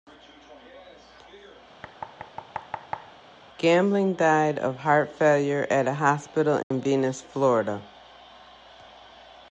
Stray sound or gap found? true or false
true